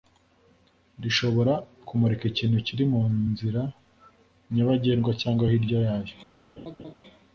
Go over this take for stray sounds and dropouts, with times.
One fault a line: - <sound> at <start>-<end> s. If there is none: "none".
- laugh at 6.6-6.9 s